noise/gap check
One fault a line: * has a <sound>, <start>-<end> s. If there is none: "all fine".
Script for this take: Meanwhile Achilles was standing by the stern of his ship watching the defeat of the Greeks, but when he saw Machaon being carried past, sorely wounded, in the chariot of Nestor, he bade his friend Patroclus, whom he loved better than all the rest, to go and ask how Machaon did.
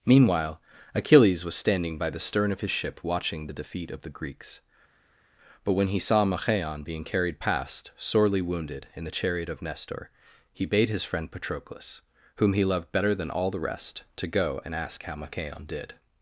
all fine